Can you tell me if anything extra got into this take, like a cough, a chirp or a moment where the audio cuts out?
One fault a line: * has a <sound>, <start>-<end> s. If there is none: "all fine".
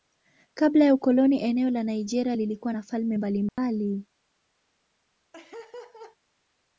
* has a dropout, 3.5-3.6 s
* has a laugh, 5.3-6.2 s